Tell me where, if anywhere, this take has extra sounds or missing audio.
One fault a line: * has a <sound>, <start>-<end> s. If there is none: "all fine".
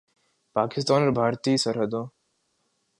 all fine